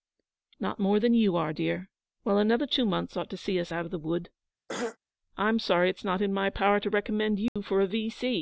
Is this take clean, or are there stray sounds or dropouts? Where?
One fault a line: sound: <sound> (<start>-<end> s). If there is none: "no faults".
sound: throat clearing (4.7-5.0 s)
sound: dropout (7.5-7.6 s)